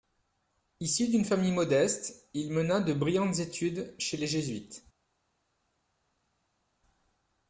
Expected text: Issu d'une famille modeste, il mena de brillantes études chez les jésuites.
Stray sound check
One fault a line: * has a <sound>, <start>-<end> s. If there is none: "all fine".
all fine